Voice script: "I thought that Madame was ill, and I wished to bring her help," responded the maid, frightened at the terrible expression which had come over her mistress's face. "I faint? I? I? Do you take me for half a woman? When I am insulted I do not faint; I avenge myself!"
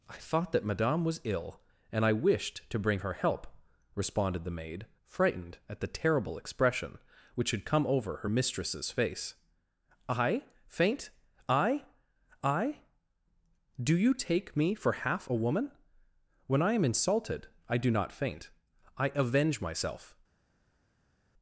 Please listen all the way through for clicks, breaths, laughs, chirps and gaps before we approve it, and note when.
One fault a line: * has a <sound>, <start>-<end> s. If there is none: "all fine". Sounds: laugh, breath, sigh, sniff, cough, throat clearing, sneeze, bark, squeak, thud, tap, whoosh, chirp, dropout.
all fine